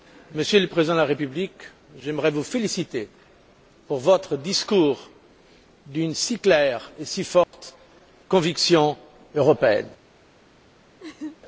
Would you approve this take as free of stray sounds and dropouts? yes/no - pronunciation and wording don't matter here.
no